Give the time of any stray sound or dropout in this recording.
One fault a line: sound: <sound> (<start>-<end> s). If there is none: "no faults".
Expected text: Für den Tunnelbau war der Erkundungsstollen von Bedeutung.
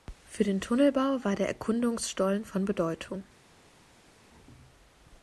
no faults